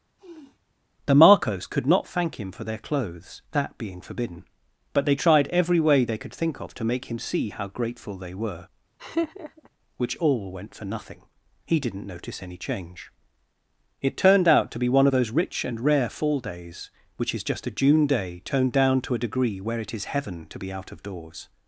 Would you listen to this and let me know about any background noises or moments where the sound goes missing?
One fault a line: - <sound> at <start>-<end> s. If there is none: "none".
- sniff at 0.2-0.6 s
- laugh at 9.0-9.7 s